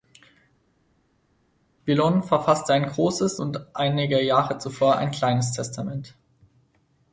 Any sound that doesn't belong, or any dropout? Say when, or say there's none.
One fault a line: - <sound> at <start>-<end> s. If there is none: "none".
none